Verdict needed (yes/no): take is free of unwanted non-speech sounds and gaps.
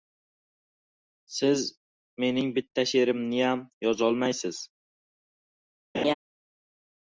no